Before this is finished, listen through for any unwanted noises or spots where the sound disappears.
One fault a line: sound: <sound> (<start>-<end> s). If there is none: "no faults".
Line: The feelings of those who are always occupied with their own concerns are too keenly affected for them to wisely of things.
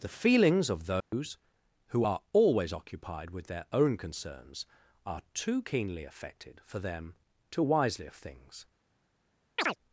sound: dropout (1.0-1.1 s)
sound: chirp (9.6-9.8 s)